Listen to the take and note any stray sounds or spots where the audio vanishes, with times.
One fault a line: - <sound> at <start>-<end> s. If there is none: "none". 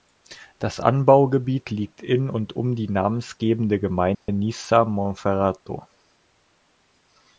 - dropout at 4.1-4.3 s